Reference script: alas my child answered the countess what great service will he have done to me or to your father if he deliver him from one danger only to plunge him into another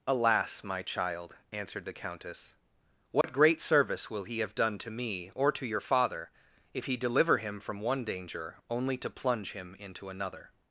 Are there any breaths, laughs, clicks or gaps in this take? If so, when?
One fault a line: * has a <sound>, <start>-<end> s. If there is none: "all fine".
* has a dropout, 3.2-3.2 s